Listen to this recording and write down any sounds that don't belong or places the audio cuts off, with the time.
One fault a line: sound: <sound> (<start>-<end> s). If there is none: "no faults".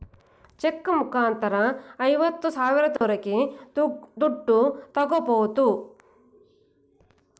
sound: dropout (3.0-3.0 s)